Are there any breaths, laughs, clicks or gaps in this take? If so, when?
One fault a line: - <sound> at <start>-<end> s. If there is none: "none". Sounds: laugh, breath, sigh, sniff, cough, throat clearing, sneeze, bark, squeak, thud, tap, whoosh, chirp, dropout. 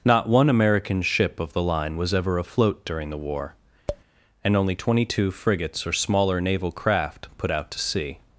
- tap at 3.9-4.0 s